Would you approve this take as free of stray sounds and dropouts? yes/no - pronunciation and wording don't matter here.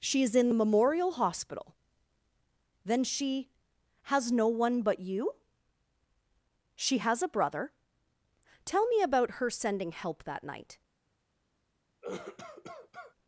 no